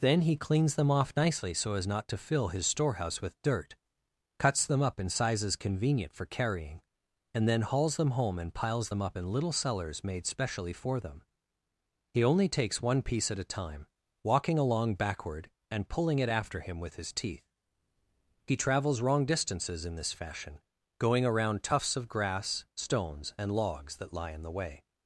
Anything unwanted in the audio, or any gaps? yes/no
no